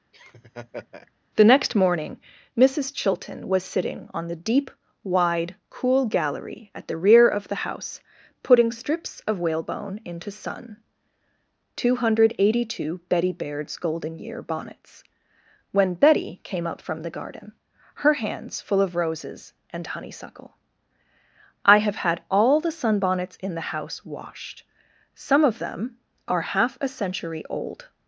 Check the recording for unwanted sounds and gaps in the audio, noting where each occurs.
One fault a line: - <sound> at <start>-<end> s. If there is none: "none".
- laugh at 0.1-1.1 s